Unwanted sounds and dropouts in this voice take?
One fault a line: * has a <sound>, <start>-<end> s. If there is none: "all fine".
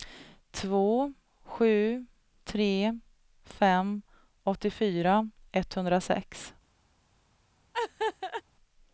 * has a laugh, 7.7-8.4 s